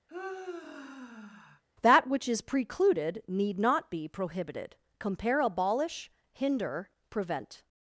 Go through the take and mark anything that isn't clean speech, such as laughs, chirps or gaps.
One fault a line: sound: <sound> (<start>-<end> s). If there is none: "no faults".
sound: sigh (0.1-1.6 s)